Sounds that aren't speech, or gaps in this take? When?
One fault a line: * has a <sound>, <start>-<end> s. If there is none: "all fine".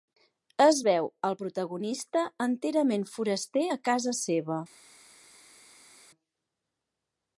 all fine